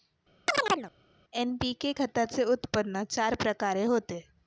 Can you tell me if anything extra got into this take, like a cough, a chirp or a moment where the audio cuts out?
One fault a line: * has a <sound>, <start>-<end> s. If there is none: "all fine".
* has a chirp, 0.5-0.9 s